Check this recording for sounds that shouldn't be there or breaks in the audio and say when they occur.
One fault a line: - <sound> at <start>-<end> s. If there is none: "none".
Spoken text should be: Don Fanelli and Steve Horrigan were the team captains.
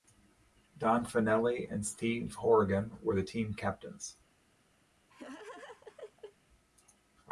- laugh at 5.1-6.4 s